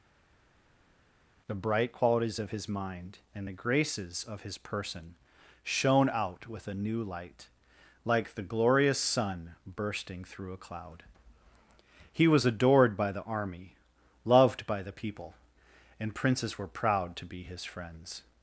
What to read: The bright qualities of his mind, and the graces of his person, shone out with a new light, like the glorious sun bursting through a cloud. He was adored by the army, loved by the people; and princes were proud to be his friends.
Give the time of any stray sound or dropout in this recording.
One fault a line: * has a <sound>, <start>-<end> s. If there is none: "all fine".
all fine